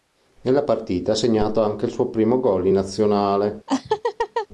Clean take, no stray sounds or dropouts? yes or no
no